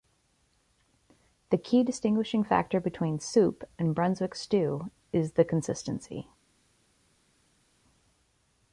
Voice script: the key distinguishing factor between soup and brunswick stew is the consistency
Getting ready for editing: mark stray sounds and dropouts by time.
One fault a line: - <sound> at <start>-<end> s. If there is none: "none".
none